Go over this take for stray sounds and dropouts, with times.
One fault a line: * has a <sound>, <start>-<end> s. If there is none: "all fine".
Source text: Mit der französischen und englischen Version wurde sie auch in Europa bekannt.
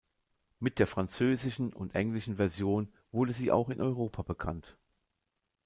all fine